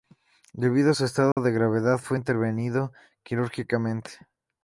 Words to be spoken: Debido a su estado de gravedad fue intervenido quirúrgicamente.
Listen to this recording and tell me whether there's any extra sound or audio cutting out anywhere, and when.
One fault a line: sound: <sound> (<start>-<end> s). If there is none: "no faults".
sound: dropout (1.3-1.4 s)